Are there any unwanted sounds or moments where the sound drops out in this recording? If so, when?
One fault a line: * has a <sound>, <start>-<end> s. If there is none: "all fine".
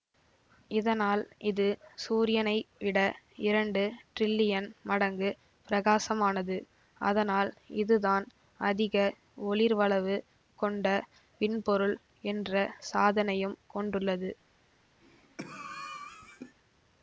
* has a cough, 15.0-16.6 s